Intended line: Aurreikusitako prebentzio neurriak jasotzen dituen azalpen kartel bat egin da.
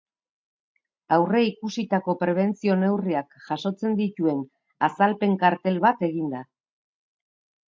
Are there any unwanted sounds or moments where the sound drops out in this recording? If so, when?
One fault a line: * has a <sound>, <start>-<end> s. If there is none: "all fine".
all fine